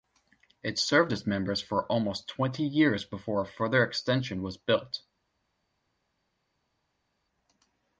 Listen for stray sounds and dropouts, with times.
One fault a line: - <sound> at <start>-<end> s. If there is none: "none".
none